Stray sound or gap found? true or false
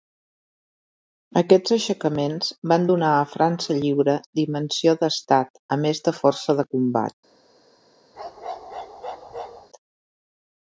true